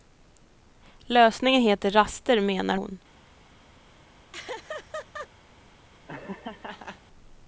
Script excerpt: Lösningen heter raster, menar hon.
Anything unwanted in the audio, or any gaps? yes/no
yes